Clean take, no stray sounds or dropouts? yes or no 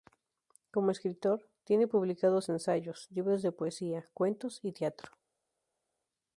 yes